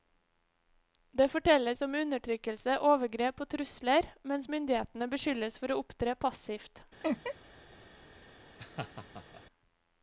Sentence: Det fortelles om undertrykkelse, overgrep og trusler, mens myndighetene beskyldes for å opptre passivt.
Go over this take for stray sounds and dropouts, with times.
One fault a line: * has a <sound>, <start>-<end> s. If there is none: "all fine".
* has a laugh, 7.0-7.4 s
* has a laugh, 8.6-9.4 s